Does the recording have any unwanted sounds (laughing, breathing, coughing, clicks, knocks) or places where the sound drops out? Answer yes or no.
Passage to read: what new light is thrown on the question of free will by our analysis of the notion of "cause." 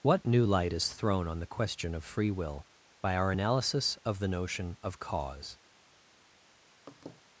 yes